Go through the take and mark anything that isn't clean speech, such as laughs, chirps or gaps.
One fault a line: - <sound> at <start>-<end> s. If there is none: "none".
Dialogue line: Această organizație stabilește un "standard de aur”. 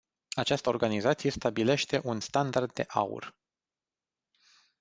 none